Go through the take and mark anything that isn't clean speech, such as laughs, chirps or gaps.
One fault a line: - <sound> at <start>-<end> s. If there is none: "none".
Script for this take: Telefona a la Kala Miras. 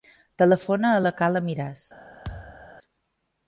- thud at 2.2-2.7 s